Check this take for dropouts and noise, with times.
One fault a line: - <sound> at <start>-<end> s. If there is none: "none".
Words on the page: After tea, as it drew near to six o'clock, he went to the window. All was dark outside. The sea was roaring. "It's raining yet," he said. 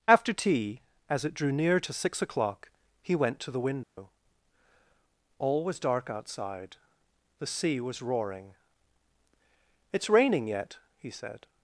- dropout at 3.8-4.0 s